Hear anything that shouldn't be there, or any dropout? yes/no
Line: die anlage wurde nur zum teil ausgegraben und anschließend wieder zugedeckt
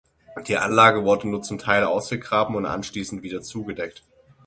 no